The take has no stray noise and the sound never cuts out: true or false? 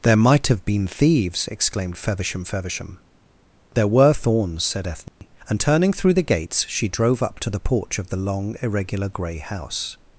false